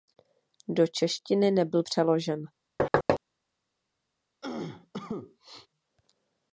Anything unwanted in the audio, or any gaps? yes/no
yes